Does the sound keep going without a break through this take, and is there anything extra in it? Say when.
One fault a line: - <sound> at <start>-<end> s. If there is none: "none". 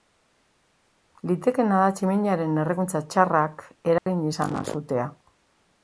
- dropout at 4.0-4.1 s